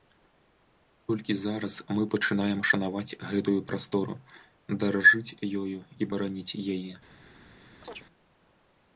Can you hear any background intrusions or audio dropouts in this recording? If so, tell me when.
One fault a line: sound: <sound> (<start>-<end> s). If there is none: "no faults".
sound: chirp (7.8-8.1 s)